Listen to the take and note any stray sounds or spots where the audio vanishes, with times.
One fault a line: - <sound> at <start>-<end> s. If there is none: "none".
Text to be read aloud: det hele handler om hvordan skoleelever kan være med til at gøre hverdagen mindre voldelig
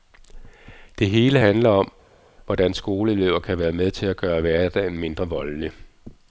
none